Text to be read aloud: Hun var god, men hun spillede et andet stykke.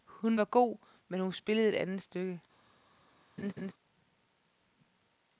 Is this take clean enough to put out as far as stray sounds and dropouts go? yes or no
no